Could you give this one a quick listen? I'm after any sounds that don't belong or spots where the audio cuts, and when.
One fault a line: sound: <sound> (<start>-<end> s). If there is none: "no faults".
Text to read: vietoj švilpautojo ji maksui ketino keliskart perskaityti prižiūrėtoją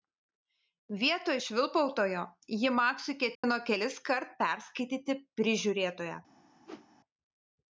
sound: dropout (3.3-3.4 s)
sound: whoosh (6.7-6.9 s)